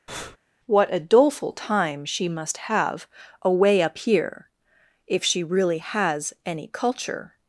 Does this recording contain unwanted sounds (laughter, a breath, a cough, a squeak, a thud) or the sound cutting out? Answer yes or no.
yes